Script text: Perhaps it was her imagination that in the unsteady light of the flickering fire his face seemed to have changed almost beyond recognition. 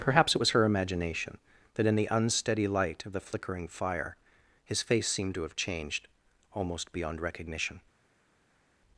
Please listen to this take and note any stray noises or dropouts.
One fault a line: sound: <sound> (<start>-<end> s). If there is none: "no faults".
no faults